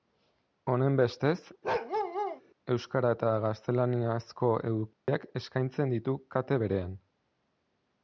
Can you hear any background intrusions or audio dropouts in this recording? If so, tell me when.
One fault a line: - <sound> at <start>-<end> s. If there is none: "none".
- bark at 1.6-2.4 s
- dropout at 4.9-5.1 s